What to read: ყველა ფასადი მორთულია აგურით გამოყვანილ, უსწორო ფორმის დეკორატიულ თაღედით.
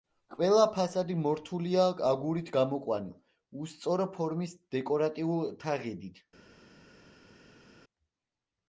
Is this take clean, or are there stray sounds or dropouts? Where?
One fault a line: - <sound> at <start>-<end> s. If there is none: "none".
none